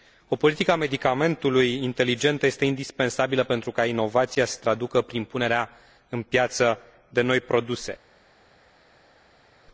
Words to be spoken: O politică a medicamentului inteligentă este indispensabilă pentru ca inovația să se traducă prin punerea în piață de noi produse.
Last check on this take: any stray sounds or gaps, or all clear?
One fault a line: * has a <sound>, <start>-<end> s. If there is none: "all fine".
all fine